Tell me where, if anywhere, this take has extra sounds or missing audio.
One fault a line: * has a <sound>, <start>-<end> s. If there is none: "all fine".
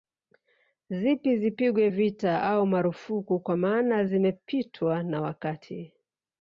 all fine